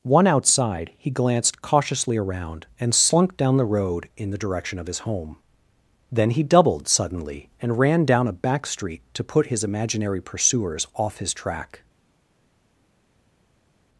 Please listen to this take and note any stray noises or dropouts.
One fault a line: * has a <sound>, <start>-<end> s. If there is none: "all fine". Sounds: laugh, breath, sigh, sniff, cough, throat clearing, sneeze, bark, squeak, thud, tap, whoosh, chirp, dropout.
all fine